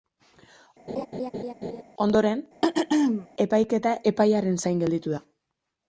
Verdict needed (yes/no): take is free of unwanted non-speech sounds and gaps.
no